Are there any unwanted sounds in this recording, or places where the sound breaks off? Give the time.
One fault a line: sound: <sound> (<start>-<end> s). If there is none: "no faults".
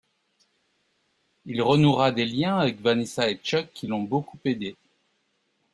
no faults